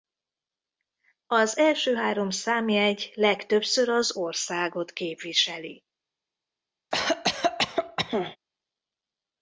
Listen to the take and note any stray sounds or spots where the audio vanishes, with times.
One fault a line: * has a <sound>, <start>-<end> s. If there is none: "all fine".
* has a cough, 6.9-8.4 s